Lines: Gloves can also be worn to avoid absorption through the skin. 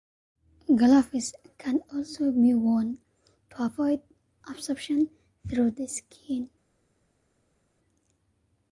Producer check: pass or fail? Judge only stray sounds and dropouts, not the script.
pass